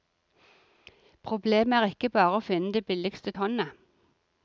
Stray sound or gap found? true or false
false